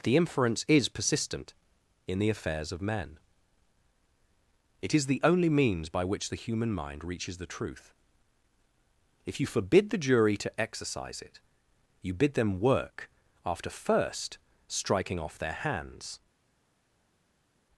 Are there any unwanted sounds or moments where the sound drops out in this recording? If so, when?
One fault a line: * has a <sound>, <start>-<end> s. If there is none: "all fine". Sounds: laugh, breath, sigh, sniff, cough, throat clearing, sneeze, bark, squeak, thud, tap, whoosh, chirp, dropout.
all fine